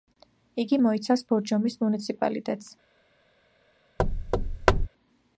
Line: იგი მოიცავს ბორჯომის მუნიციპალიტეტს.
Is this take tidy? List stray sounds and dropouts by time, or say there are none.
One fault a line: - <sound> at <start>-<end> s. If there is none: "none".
- thud at 4.0-4.9 s